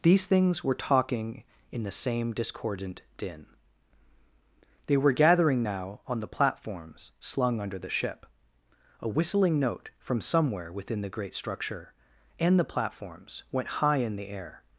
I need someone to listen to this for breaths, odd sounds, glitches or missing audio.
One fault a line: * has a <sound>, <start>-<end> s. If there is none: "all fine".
all fine